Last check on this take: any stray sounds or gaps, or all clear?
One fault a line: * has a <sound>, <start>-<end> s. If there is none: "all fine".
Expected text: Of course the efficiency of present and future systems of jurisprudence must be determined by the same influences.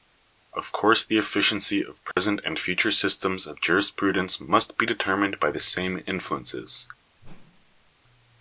* has a dropout, 2.1-2.2 s
* has a whoosh, 7.2-7.9 s